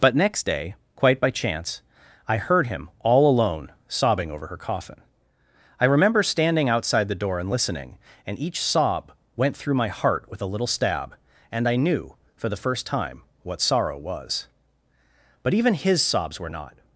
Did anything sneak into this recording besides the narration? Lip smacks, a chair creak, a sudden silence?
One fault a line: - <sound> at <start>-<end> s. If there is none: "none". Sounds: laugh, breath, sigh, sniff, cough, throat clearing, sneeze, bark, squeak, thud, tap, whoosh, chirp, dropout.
none